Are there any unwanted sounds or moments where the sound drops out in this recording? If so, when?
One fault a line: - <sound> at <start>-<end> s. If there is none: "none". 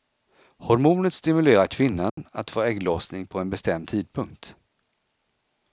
- dropout at 2.1-2.2 s